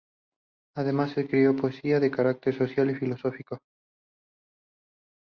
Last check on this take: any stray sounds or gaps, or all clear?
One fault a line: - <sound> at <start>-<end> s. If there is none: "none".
none